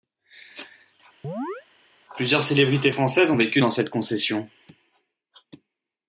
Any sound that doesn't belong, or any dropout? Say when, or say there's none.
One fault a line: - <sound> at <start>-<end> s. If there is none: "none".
- chirp at 1.2-1.7 s